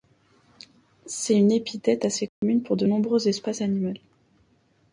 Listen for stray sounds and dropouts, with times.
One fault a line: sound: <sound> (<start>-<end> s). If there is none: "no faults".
sound: dropout (2.3-2.4 s)